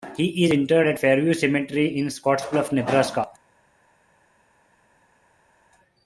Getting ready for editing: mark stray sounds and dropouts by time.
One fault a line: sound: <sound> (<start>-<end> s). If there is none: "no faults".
no faults